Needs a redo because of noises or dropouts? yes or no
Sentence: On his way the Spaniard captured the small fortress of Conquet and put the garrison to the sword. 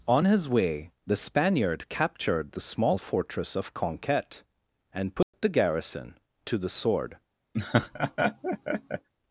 yes